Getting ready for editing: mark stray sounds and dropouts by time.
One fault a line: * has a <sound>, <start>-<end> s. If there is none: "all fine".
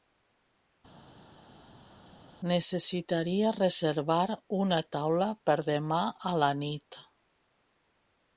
all fine